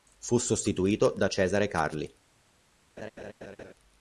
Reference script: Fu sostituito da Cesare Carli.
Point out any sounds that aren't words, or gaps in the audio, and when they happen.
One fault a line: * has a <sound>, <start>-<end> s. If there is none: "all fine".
* has a laugh, 3.0-3.7 s